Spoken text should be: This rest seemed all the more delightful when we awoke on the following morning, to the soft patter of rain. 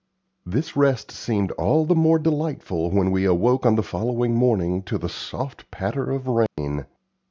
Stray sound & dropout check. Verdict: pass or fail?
fail